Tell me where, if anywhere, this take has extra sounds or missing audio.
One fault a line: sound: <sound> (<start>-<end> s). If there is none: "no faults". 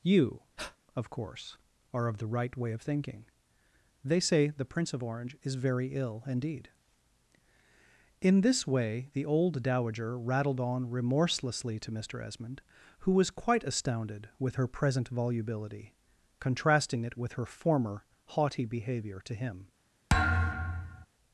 sound: breath (0.6-0.8 s)
sound: thud (20.1-21.1 s)